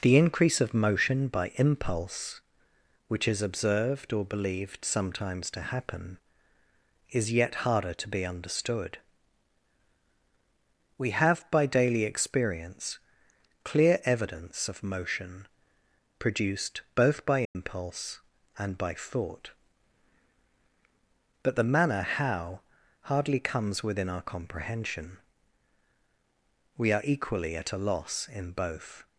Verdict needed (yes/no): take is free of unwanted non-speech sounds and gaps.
no